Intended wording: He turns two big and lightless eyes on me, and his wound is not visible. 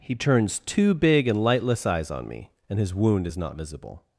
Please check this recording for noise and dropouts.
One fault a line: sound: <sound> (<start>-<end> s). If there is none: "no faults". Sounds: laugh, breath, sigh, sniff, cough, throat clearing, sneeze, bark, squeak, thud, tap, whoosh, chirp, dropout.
no faults